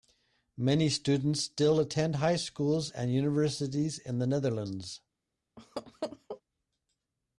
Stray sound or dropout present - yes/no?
yes